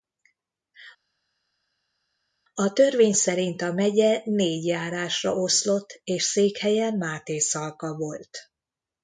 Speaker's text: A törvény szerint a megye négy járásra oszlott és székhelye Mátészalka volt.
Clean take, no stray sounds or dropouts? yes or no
yes